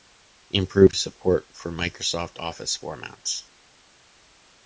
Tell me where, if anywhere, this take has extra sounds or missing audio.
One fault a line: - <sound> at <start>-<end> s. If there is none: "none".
none